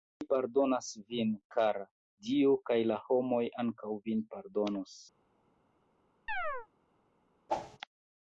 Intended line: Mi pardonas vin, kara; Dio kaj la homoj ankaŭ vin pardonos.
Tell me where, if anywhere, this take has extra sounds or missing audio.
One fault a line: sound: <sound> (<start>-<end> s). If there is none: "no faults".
sound: chirp (6.3-6.7 s)
sound: whoosh (7.5-7.8 s)